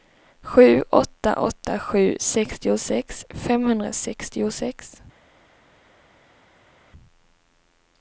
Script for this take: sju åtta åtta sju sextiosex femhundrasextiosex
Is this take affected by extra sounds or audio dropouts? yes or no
no